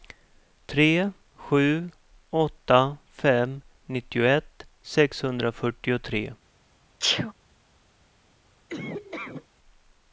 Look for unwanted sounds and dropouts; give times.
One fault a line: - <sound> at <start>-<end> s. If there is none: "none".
- sneeze at 7.0-7.3 s
- laugh at 8.7-9.5 s